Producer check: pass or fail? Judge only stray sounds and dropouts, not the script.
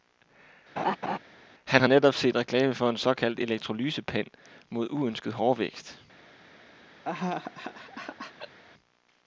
fail